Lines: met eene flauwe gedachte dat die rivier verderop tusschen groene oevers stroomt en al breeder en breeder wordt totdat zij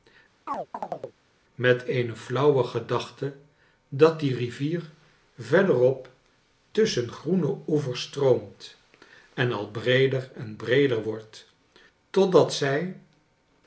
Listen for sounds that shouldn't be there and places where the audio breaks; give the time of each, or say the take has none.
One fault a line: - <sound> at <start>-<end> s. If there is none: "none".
- chirp at 0.5-1.2 s